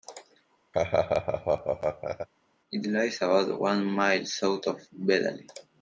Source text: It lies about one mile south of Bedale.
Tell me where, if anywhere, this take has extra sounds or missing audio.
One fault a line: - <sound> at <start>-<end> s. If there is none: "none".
- laugh at 0.7-2.3 s